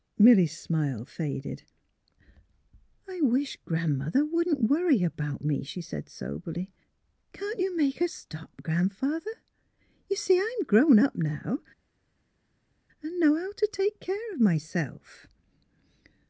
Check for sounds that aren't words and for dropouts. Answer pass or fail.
pass